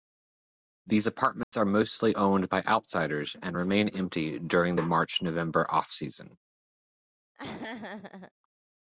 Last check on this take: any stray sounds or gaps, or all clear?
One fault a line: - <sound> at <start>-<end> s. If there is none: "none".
- dropout at 1.4-1.5 s
- laugh at 7.4-8.3 s